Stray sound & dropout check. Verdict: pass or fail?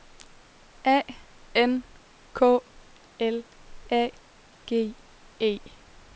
pass